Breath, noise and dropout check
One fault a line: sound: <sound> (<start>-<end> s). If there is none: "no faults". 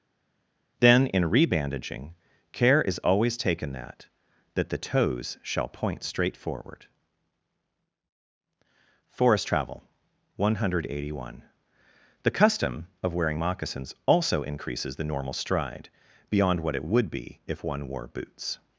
no faults